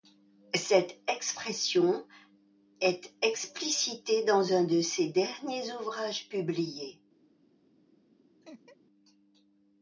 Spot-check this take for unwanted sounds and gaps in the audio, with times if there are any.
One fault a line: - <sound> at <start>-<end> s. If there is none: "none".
- laugh at 8.4-8.8 s